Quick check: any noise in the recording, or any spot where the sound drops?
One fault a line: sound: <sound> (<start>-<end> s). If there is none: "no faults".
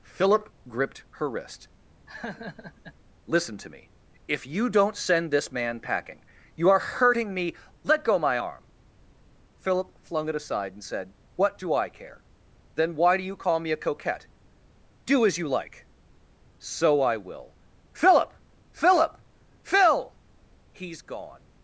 sound: laugh (2.1-2.9 s)